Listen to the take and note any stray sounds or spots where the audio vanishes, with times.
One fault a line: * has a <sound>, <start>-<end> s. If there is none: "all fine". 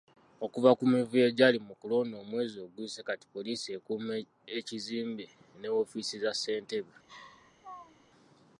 * has a laugh, 7.1-8.1 s